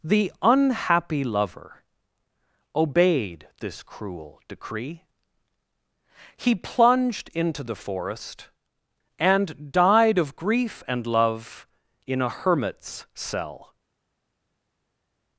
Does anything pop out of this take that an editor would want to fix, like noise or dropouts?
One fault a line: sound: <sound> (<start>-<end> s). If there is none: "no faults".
no faults